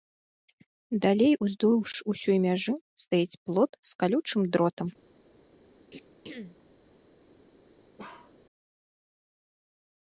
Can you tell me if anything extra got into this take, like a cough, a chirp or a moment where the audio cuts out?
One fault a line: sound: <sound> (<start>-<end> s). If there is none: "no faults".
sound: throat clearing (5.9-6.6 s)
sound: bark (8.0-8.3 s)